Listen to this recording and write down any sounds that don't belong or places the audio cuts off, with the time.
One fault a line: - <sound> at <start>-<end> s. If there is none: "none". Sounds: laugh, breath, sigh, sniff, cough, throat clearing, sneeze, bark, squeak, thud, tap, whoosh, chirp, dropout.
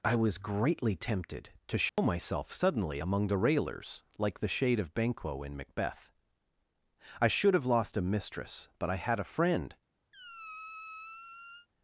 - dropout at 1.9-2.0 s
- squeak at 10.1-11.7 s